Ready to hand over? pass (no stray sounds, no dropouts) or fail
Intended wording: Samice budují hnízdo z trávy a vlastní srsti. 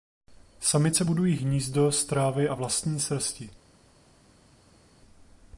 pass